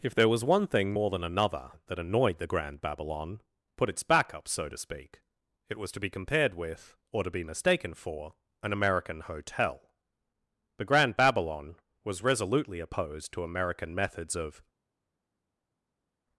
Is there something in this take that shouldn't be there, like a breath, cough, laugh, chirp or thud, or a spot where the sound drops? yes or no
no